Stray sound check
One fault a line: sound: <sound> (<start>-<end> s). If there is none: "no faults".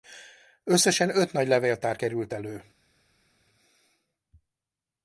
no faults